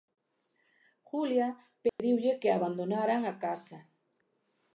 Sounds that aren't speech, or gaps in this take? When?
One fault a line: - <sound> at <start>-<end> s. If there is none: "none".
- dropout at 1.9-2.0 s